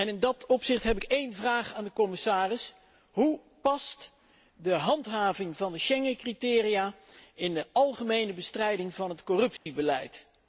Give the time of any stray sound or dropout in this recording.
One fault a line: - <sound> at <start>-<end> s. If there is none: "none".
- dropout at 9.6-9.7 s